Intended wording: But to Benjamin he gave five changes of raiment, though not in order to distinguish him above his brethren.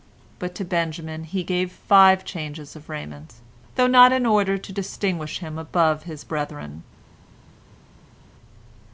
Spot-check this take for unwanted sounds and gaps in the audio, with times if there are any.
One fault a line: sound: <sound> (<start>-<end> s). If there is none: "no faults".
no faults